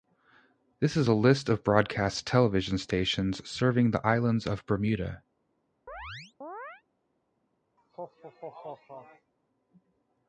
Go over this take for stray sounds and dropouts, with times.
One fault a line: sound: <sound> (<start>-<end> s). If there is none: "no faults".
sound: chirp (5.9-6.8 s)
sound: laugh (7.8-9.3 s)